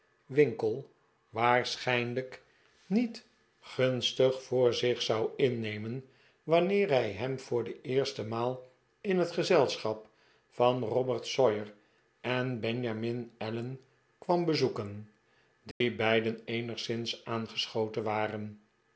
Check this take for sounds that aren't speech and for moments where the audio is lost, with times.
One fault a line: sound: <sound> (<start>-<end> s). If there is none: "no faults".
sound: dropout (15.7-15.8 s)